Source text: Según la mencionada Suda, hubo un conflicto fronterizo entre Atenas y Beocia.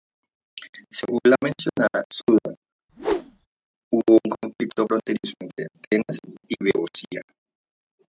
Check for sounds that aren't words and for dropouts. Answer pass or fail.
fail